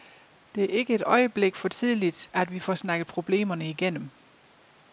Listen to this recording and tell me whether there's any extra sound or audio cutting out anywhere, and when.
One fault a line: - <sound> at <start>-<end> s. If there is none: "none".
none